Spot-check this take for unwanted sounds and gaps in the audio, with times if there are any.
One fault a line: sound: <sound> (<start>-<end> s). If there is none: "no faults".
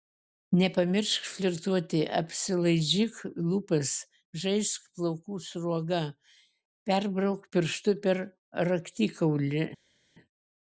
no faults